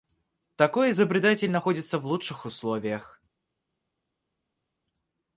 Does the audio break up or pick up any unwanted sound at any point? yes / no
no